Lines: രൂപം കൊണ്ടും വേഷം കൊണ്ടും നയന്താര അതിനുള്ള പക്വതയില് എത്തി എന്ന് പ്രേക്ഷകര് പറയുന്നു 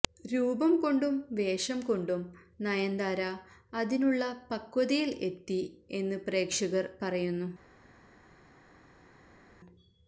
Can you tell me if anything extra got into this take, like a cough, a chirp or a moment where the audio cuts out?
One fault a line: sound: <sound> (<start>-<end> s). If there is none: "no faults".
no faults